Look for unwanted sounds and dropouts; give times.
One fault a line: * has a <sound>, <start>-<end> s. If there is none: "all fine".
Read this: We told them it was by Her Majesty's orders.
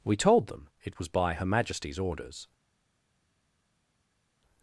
all fine